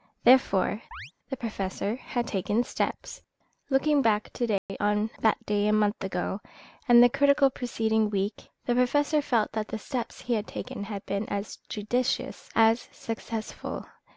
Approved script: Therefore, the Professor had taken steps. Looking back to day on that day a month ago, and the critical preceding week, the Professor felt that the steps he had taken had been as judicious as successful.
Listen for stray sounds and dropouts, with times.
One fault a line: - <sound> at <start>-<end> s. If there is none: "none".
- chirp at 0.9-1.1 s
- dropout at 4.6-4.7 s